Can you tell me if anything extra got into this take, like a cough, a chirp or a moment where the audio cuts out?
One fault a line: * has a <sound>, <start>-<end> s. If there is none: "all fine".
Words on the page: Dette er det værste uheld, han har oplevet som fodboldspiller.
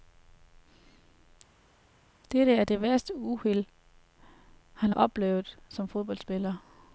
all fine